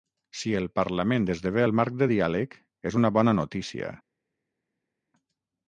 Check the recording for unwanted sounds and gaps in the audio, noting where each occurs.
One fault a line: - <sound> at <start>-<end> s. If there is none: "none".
none